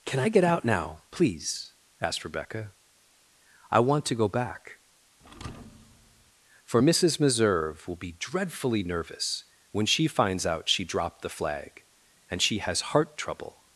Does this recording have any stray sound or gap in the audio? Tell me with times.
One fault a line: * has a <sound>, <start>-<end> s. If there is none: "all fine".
* has a thud, 5.2-6.3 s